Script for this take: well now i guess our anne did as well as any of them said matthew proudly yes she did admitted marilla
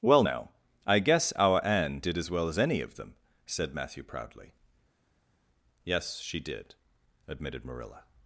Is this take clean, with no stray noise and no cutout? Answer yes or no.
yes